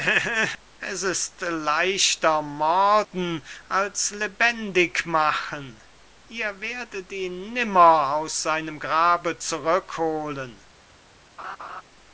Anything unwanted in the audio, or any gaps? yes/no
yes